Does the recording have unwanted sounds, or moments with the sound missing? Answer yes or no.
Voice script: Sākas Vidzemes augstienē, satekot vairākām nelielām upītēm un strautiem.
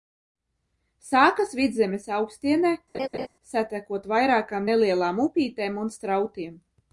yes